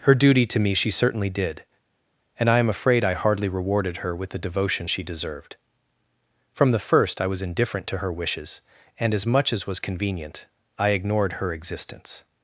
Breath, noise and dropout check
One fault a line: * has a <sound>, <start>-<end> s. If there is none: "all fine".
all fine